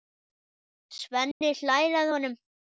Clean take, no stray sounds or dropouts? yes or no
no